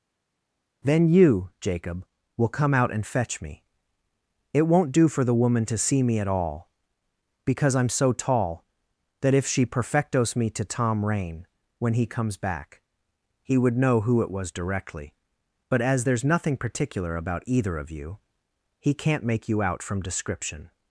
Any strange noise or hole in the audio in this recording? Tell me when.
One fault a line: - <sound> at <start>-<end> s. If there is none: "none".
none